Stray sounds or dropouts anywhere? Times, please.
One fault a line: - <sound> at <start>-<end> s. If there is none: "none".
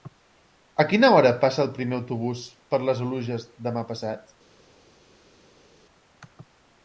none